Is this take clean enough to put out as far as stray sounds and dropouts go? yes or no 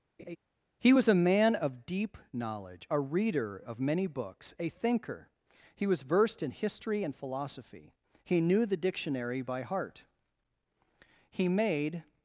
no